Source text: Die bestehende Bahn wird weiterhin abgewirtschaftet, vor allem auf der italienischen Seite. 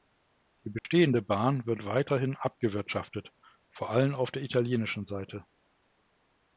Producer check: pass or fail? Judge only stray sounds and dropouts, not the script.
fail